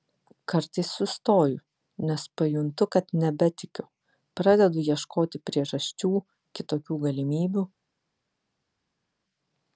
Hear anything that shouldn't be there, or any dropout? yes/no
no